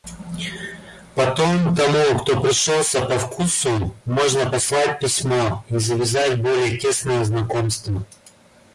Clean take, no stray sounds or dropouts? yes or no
yes